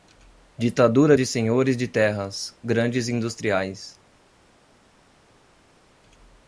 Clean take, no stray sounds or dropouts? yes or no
yes